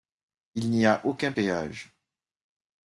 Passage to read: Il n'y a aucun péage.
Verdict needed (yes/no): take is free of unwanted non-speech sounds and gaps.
yes